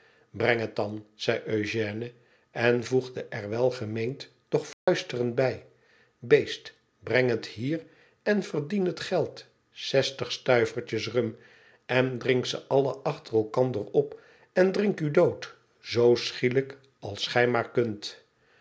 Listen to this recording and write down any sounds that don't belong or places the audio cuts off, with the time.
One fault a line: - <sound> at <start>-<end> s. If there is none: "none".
- dropout at 4.7-4.9 s